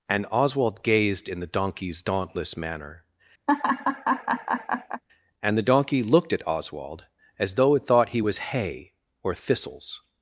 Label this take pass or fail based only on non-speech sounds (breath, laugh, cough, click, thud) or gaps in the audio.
fail